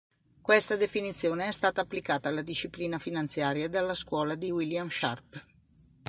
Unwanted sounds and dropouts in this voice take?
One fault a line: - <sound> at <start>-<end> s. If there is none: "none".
none